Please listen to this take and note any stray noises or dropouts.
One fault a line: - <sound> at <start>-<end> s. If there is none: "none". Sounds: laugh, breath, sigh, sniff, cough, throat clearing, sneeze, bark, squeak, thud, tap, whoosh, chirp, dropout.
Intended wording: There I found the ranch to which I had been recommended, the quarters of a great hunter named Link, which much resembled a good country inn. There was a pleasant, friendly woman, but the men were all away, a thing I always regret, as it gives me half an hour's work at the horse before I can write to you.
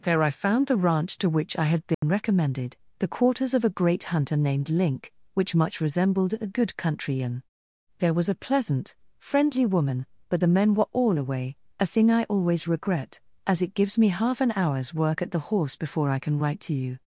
- dropout at 1.9-2.0 s